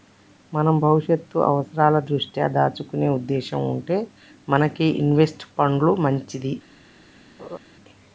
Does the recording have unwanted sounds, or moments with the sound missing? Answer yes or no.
yes